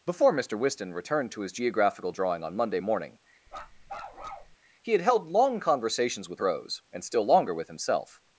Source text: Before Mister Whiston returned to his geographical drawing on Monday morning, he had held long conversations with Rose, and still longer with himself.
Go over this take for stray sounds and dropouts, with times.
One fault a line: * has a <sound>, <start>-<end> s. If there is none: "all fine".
* has a bark, 3.5-4.6 s